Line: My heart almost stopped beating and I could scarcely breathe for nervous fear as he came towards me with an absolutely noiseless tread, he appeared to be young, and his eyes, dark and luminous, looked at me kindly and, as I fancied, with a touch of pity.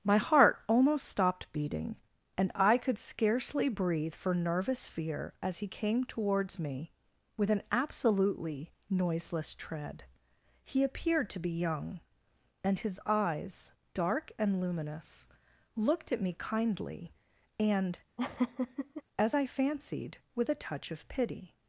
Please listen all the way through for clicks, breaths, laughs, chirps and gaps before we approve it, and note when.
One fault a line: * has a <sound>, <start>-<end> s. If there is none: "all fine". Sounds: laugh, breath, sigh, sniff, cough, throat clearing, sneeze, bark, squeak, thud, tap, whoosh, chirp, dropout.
* has a laugh, 18.2-19.0 s